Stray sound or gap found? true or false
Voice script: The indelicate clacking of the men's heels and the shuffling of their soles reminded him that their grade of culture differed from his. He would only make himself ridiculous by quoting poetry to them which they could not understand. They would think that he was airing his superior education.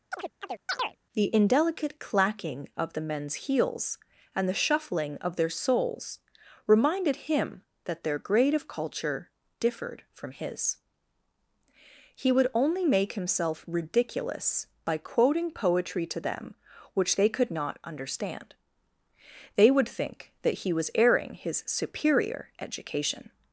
true